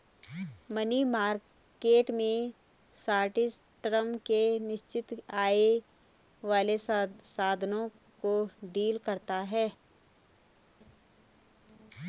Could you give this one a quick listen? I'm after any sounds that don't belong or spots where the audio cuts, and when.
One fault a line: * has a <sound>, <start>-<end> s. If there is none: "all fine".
all fine